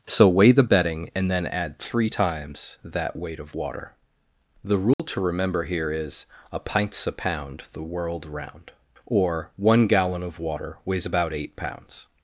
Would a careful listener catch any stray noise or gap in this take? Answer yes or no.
yes